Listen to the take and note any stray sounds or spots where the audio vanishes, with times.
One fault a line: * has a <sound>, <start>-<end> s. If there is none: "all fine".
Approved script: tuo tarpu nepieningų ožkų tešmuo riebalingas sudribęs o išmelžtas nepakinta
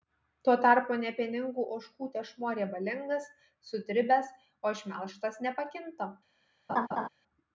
* has a laugh, 6.7-7.1 s